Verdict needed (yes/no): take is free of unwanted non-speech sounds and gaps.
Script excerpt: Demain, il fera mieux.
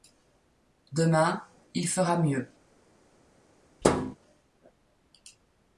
no